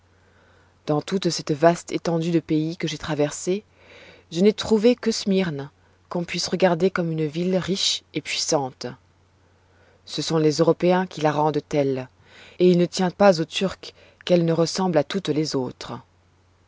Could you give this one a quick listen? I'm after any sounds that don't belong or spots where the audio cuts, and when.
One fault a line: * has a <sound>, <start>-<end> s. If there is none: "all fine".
all fine